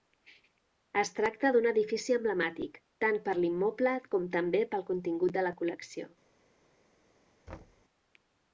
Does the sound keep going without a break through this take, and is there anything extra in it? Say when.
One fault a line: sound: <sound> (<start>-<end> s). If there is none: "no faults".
sound: thud (7.5-7.8 s)